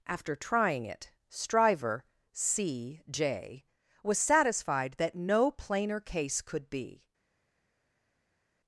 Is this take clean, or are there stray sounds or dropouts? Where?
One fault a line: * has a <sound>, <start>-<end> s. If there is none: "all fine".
all fine